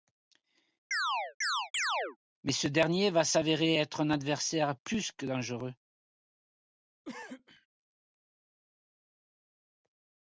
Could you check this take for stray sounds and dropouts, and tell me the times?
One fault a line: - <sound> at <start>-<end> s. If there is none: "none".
- chirp at 0.9-2.2 s
- cough at 7.0-7.7 s